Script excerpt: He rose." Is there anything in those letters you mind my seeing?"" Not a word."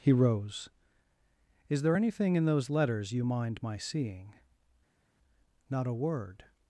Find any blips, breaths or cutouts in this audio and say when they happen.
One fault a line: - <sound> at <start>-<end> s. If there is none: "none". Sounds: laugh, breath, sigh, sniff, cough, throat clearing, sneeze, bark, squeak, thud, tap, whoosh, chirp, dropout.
none